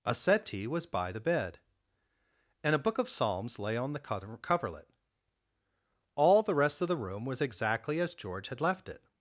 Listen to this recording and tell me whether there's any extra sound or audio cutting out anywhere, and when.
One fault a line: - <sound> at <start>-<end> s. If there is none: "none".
none